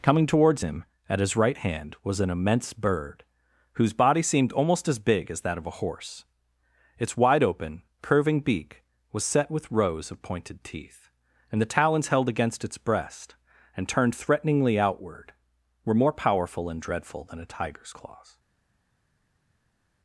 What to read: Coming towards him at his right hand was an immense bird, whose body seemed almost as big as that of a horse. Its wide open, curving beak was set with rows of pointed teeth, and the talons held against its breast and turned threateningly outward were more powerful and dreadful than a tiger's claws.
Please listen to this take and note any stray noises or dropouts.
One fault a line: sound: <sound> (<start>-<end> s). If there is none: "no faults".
no faults